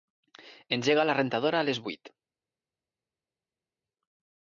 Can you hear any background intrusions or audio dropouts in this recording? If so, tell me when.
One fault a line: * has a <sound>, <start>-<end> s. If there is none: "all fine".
all fine